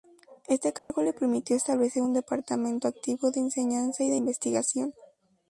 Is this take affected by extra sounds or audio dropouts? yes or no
yes